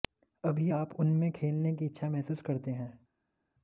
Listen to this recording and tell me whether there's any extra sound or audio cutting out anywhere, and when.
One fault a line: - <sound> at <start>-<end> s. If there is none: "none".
none